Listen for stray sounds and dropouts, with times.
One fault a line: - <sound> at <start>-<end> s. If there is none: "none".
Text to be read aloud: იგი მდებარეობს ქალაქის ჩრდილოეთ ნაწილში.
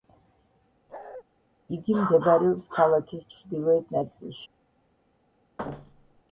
- bark at 0.9-1.2 s
- thud at 5.6-6.2 s